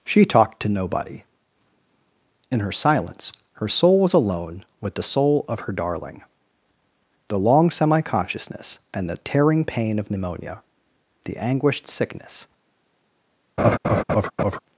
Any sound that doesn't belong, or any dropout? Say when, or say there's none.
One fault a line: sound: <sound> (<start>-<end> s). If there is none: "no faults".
sound: laugh (13.6-14.6 s)